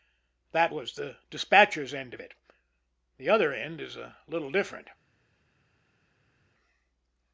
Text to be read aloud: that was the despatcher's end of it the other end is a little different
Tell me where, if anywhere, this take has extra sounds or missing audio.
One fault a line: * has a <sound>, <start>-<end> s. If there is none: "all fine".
all fine